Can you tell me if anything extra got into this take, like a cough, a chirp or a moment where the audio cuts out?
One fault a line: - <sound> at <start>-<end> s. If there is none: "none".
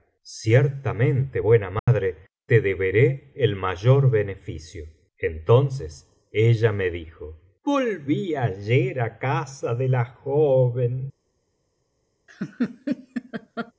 - dropout at 1.8-1.9 s
- laugh at 12.3-13.7 s